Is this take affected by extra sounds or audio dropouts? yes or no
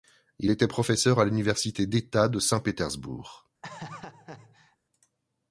yes